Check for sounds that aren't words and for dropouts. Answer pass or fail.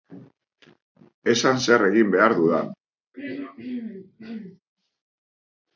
fail